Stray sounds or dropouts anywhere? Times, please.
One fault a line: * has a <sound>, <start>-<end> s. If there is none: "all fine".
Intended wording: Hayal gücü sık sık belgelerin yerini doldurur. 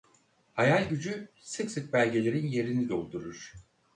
all fine